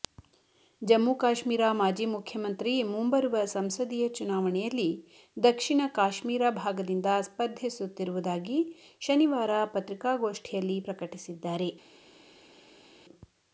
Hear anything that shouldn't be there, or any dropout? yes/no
no